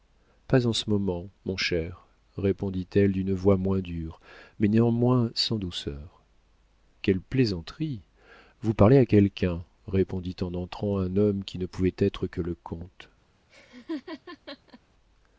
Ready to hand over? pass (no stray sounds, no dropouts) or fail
fail